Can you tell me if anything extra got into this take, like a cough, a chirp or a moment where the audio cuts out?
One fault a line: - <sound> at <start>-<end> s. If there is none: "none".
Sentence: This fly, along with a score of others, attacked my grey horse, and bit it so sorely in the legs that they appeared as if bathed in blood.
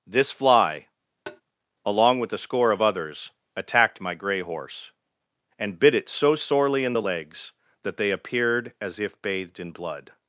- tap at 1.3-1.4 s